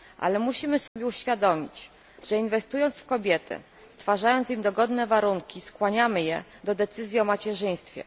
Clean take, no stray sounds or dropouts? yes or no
no